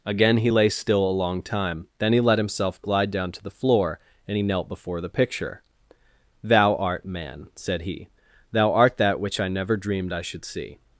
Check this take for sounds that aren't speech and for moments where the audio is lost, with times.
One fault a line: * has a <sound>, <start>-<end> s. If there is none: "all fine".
all fine